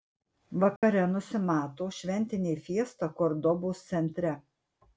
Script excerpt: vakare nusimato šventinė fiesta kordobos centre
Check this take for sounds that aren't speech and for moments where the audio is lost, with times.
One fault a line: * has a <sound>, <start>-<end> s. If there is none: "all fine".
* has a dropout, 0.8-0.8 s